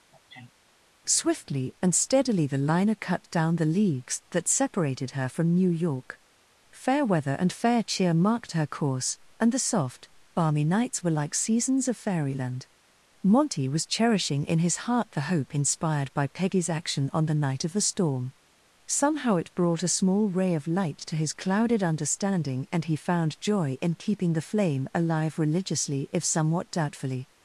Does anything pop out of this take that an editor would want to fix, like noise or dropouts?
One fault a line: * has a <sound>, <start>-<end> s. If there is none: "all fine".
* has a sneeze, 0.1-0.5 s